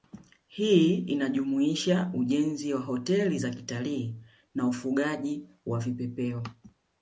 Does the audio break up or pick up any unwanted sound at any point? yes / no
no